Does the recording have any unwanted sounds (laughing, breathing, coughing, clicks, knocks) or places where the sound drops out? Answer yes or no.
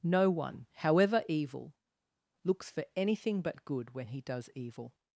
no